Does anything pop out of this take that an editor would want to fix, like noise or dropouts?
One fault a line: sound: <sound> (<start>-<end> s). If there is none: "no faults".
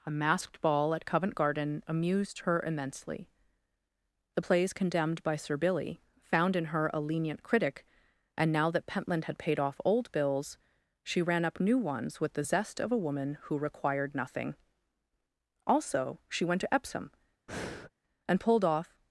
sound: breath (17.5-17.9 s)